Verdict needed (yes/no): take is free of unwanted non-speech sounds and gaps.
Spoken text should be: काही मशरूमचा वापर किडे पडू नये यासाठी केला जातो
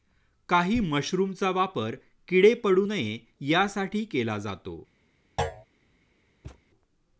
no